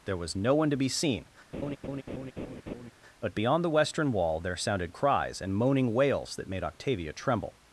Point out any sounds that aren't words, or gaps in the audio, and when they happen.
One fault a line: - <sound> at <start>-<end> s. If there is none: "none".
- laugh at 1.5-2.9 s